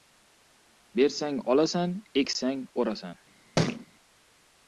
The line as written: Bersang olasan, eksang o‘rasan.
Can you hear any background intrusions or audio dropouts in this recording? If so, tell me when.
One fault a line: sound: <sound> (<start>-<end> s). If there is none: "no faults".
sound: thud (3.6-3.9 s)